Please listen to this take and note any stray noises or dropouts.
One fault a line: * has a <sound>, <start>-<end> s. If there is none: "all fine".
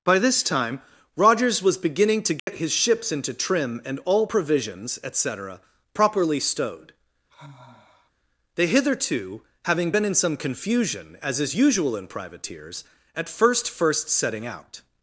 * has a dropout, 2.4-2.5 s
* has a sigh, 7.3-8.1 s